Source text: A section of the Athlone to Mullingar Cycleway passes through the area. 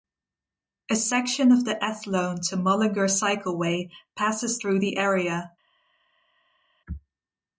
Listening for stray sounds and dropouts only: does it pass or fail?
pass